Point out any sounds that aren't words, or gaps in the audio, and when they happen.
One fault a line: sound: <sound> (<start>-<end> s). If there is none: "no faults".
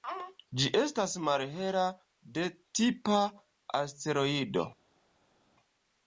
no faults